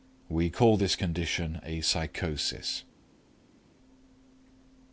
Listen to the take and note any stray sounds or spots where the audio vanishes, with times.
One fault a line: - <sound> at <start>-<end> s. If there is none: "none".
none